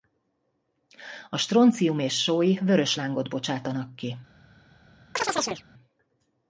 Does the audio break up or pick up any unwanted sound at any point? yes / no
yes